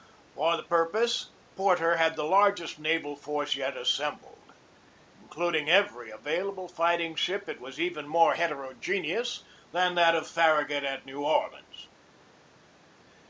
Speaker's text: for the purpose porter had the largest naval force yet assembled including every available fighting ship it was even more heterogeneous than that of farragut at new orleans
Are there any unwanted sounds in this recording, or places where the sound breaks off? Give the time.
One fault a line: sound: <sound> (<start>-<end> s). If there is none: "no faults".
no faults